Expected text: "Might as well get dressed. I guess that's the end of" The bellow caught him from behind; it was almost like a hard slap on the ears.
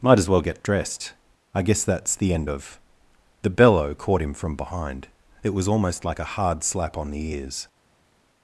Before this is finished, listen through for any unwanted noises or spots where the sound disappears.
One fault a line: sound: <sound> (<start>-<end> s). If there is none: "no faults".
no faults